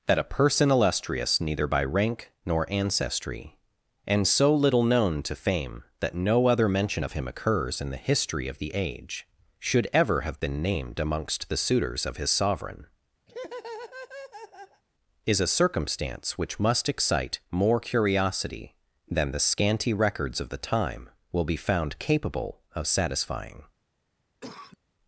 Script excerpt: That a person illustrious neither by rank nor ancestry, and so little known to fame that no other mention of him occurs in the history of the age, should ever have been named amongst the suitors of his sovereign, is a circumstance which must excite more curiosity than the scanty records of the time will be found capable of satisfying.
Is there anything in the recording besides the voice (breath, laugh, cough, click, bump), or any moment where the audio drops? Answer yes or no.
yes